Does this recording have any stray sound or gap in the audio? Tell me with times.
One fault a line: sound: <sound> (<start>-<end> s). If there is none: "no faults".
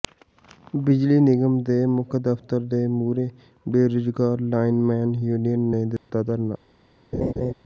sound: dropout (6.0-6.1 s)
sound: laugh (7.1-7.5 s)